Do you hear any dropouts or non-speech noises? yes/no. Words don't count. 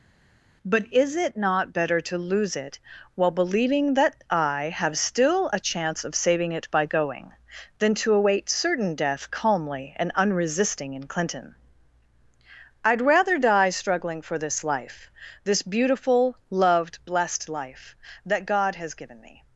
no